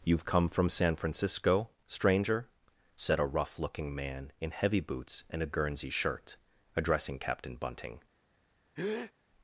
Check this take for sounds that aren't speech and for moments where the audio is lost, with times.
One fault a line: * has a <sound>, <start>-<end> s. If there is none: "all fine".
* has a breath, 8.8-9.1 s